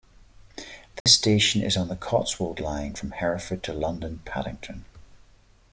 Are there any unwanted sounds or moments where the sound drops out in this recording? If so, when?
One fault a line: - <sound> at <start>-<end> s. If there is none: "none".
- dropout at 1.0-1.1 s